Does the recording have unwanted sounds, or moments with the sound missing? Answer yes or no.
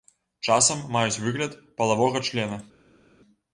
no